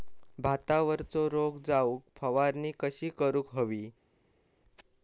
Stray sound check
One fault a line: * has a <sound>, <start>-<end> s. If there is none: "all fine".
all fine